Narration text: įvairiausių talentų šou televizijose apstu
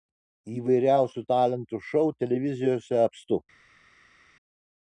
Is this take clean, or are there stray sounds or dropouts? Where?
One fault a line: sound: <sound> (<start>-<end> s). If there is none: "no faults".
no faults